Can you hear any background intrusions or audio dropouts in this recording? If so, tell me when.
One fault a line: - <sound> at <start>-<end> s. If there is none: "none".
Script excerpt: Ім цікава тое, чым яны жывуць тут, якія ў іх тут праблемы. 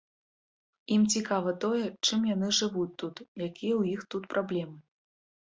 none